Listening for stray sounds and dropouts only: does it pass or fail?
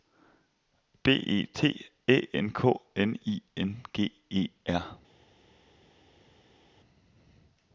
pass